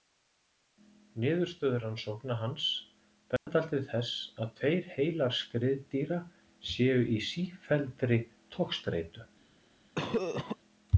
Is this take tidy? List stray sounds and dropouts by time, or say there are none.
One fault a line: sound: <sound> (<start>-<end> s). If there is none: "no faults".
sound: dropout (3.4-3.5 s)
sound: cough (10.0-10.6 s)